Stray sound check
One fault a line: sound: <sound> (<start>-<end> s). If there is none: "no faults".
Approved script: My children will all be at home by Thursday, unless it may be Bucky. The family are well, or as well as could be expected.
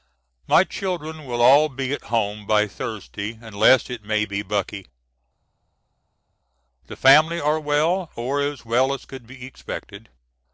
no faults